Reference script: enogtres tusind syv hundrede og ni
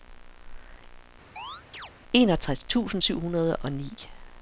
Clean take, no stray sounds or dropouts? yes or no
no